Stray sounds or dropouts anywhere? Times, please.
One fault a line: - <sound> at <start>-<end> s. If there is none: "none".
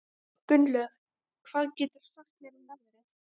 none